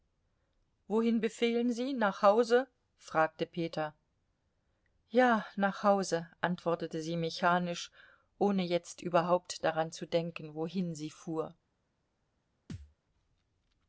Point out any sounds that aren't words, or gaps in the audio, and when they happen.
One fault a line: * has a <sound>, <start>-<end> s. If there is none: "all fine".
* has a thud, 12.7-13.0 s